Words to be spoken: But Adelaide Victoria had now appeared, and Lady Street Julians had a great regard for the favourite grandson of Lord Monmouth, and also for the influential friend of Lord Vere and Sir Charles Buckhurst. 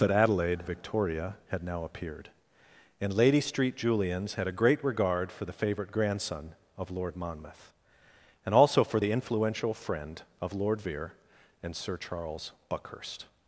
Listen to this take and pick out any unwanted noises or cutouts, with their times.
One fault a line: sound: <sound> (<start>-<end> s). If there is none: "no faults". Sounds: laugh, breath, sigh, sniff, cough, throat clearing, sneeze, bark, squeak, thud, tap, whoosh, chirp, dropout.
no faults